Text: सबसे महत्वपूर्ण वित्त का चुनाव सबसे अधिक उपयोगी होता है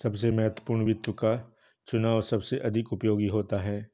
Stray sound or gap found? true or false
false